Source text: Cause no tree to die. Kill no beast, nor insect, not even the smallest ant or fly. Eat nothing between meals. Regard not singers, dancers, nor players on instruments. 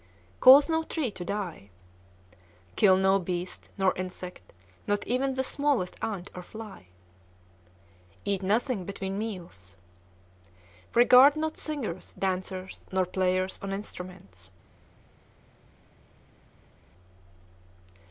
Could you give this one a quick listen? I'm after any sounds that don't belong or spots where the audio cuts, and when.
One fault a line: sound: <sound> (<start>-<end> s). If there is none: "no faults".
no faults